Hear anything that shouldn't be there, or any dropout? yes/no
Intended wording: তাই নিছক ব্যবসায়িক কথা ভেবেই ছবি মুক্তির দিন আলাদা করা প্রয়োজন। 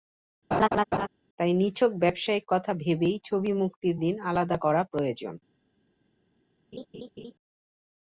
yes